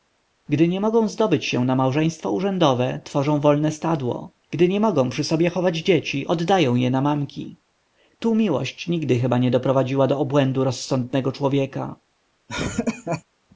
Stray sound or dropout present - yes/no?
yes